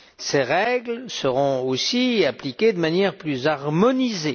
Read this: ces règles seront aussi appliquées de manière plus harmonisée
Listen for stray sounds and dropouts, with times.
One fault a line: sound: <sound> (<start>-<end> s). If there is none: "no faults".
no faults